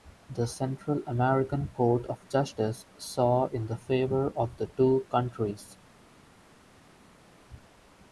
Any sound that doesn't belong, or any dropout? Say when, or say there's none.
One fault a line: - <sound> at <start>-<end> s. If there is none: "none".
none